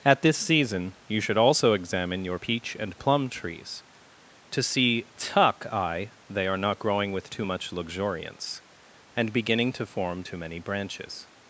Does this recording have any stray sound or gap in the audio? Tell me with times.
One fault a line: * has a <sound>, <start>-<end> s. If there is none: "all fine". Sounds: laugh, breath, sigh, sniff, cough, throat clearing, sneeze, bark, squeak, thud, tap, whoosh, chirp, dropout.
all fine